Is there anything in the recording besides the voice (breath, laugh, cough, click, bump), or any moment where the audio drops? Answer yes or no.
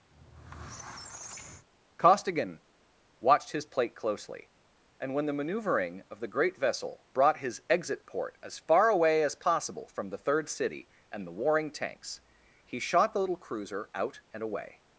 yes